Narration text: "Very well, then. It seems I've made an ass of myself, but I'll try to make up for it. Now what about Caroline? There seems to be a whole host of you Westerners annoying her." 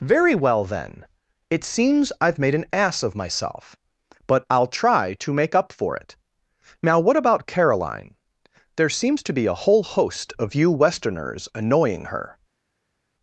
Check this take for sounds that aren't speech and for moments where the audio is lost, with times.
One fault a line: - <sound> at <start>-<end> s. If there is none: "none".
none